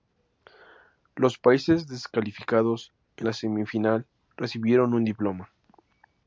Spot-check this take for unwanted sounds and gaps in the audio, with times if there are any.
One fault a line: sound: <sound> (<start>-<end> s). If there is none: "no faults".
no faults